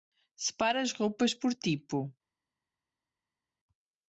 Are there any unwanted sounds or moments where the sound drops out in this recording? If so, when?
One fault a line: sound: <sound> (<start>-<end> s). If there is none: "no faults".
no faults